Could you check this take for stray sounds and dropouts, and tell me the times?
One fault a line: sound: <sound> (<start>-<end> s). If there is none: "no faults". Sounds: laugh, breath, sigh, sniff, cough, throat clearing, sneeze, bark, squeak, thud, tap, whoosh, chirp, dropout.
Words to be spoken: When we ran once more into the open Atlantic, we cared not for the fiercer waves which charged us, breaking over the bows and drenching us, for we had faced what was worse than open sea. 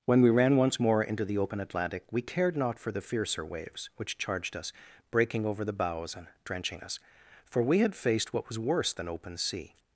no faults